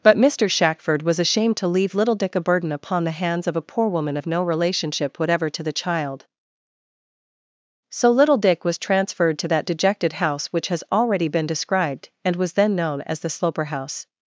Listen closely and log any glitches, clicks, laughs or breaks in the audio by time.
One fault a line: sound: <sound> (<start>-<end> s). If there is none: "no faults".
no faults